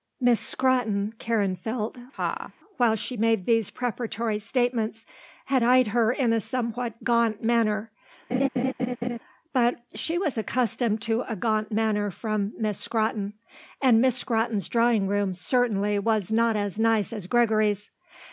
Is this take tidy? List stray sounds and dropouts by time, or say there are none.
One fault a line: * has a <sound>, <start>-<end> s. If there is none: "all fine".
* has a laugh, 2.1-2.5 s
* has a laugh, 8.3-9.2 s